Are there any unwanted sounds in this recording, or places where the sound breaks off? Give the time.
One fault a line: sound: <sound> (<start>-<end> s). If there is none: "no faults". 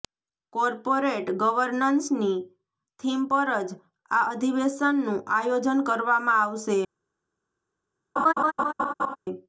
sound: laugh (8.2-9.2 s)